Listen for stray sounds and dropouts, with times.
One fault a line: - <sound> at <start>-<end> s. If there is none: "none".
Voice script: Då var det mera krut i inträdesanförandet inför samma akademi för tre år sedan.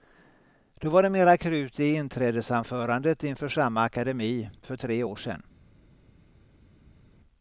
none